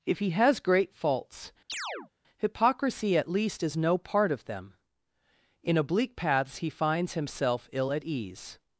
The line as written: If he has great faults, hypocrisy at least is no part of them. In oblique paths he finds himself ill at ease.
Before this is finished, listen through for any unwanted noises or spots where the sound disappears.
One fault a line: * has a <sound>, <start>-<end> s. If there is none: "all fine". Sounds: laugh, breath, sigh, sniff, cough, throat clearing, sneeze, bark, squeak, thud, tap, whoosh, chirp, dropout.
* has a chirp, 1.7-2.1 s